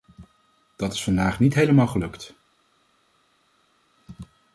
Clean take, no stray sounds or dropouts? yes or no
yes